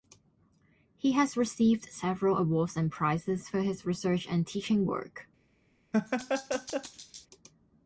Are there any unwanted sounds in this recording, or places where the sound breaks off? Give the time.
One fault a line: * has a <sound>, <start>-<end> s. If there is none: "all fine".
* has a laugh, 5.9-7.3 s